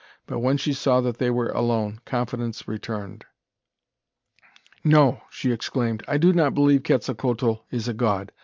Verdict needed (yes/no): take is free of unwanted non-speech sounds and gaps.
yes